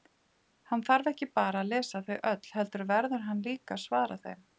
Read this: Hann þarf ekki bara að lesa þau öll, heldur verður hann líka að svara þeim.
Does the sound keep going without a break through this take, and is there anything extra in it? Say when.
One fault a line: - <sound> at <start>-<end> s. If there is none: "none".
none